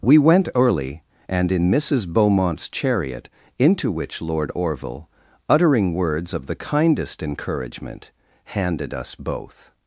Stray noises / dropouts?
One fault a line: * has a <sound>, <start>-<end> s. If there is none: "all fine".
all fine